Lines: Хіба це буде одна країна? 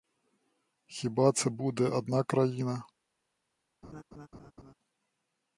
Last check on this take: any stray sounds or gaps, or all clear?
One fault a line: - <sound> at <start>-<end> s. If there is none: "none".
- laugh at 3.8-4.7 s